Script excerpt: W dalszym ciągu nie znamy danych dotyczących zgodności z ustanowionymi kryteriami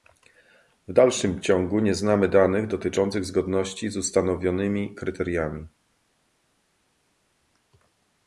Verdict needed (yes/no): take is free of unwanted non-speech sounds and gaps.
yes